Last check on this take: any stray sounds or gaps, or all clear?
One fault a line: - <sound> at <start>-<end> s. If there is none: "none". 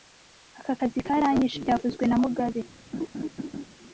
- laugh at 2.9-3.7 s